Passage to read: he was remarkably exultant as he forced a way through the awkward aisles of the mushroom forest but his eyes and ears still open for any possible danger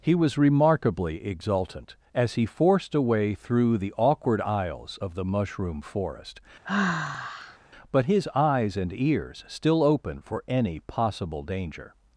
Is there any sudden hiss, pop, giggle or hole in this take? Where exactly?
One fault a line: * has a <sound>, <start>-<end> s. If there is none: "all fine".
* has a sigh, 6.6-7.6 s